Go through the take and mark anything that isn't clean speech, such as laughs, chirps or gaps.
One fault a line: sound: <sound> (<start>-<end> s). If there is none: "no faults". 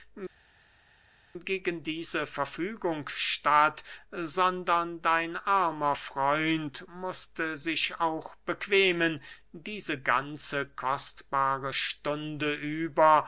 no faults